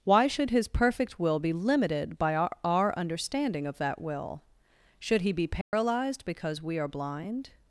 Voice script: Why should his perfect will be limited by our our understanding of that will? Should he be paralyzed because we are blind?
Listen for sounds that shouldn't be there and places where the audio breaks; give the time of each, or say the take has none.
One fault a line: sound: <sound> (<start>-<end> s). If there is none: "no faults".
sound: dropout (5.6-5.7 s)